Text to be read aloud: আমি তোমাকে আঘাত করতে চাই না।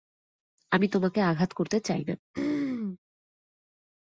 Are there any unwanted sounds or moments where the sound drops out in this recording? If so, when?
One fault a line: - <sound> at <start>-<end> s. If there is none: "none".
- throat clearing at 2.3-3.0 s